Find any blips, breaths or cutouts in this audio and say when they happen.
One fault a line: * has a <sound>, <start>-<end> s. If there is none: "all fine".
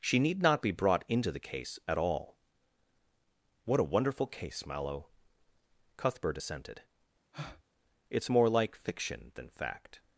* has a breath, 7.3-7.6 s